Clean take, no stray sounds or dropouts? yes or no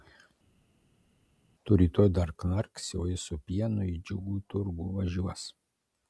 yes